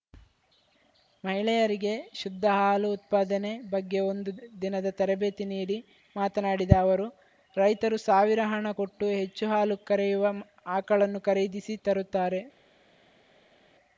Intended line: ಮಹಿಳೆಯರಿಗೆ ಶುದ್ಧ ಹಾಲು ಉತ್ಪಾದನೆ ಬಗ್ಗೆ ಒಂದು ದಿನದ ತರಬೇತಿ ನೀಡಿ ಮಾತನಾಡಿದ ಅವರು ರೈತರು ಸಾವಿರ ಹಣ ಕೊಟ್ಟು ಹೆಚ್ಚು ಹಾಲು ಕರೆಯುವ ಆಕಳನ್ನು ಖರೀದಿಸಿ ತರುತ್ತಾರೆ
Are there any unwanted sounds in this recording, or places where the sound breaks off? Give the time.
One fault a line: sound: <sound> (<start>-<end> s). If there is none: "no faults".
no faults